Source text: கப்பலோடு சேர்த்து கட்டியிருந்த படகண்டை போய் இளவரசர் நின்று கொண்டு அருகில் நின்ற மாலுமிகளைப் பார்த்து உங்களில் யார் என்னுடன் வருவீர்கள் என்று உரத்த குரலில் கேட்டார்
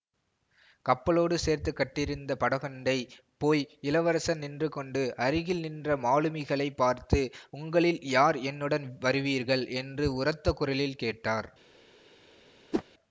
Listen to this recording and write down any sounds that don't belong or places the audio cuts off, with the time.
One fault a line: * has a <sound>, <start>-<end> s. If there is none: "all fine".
* has a whoosh, 12.7-12.8 s